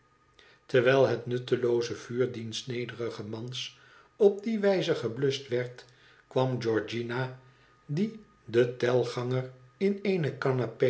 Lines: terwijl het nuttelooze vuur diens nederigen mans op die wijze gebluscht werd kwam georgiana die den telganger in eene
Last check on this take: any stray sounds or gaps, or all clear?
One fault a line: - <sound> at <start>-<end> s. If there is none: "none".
none